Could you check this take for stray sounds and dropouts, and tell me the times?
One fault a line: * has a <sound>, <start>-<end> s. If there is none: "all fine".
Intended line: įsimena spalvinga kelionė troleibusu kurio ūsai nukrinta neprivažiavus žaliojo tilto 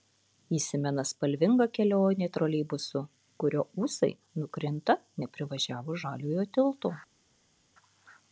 all fine